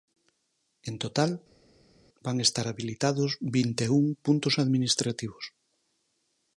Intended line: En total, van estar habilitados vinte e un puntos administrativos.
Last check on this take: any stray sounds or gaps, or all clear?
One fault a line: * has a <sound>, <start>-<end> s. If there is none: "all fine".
all fine